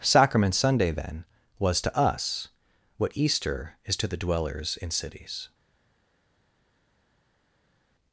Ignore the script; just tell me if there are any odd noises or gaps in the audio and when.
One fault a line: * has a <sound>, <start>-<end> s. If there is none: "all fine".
all fine